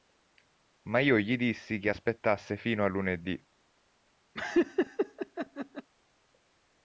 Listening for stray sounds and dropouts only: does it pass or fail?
fail